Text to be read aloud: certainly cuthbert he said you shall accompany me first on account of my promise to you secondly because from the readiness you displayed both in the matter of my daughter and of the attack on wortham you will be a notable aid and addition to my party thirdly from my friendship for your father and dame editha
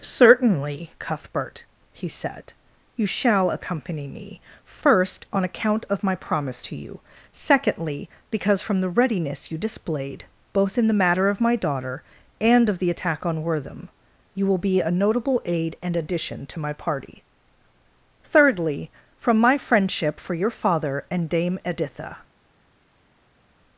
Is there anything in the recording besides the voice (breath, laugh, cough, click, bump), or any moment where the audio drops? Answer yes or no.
no